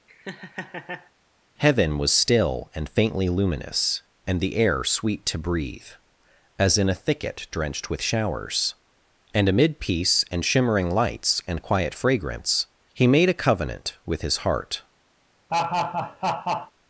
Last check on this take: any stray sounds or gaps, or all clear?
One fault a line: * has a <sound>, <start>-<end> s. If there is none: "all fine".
* has a laugh, 0.1-1.1 s
* has a laugh, 15.5-16.7 s